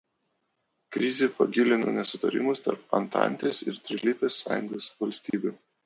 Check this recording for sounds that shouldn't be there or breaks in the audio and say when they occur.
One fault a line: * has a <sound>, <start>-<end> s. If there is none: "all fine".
* has a dropout, 5.3-5.3 s